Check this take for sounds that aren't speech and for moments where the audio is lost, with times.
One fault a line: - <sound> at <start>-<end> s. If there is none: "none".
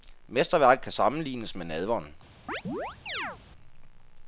- chirp at 2.5-3.4 s